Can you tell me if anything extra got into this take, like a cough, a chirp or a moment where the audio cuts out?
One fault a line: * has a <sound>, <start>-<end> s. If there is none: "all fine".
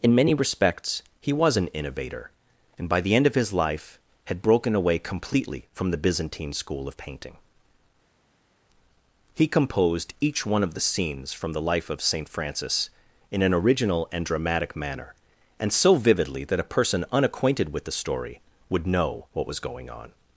all fine